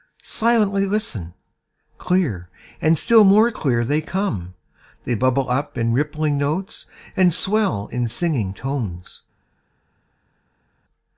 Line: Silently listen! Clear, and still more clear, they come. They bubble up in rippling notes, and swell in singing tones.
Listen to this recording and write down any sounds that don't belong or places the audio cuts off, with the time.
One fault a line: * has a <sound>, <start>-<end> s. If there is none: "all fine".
all fine